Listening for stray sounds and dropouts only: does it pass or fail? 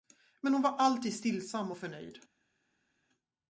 pass